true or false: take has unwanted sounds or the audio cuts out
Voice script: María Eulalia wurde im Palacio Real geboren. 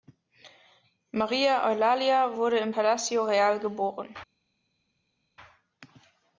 false